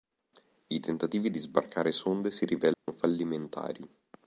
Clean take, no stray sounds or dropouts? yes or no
no